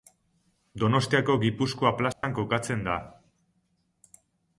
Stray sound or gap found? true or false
true